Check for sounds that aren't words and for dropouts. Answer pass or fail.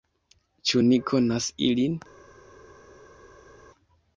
pass